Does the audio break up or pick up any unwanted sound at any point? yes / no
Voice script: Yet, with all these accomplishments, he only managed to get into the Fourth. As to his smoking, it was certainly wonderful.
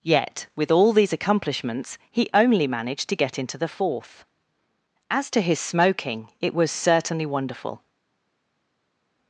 no